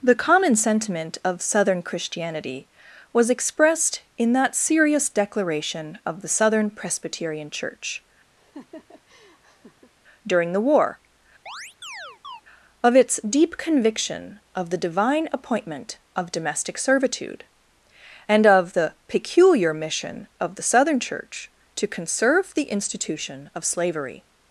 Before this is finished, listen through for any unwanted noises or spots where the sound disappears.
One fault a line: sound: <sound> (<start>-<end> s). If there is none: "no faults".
sound: laugh (8.4-9.9 s)
sound: chirp (11.5-12.4 s)